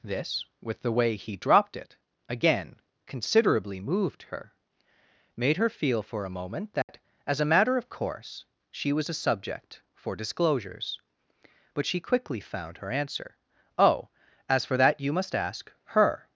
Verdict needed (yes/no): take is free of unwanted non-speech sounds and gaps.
no